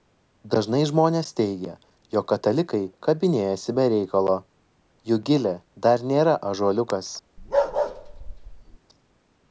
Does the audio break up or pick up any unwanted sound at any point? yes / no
yes